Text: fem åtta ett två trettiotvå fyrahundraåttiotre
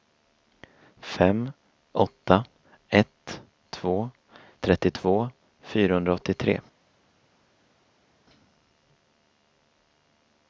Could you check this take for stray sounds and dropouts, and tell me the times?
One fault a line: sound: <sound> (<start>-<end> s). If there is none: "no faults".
no faults